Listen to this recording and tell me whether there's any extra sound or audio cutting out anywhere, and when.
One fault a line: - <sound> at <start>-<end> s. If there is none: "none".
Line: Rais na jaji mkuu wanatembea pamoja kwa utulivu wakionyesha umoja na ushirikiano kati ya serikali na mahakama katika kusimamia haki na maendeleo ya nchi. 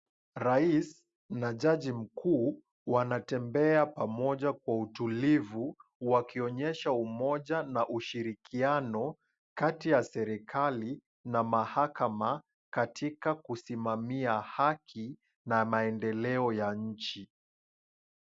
none